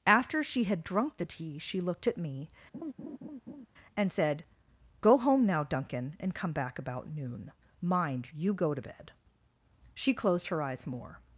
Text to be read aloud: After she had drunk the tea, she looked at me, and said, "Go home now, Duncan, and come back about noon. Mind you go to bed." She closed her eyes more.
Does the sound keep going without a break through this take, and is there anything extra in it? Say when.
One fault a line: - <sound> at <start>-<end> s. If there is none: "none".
- laugh at 2.7-3.7 s